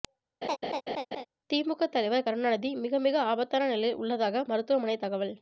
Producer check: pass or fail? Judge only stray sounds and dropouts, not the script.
fail